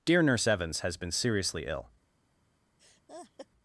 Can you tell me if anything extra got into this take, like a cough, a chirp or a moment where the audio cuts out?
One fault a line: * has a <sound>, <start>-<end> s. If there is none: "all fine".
* has a laugh, 2.8-3.5 s